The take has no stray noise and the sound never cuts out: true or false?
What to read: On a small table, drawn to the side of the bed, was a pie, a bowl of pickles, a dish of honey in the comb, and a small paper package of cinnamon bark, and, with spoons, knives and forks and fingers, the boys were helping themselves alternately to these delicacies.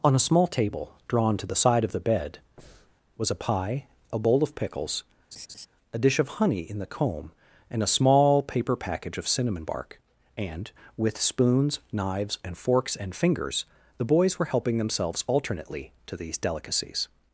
false